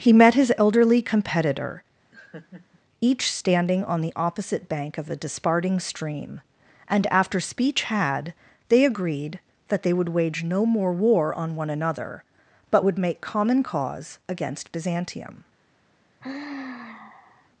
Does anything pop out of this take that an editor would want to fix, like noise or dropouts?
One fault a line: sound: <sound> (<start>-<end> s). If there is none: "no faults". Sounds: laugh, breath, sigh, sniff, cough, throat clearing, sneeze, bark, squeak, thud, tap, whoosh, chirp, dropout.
sound: laugh (2.1-2.8 s)
sound: sigh (16.2-17.5 s)